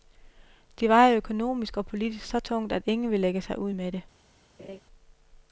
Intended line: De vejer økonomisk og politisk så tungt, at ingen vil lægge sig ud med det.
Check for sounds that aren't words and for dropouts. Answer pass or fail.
fail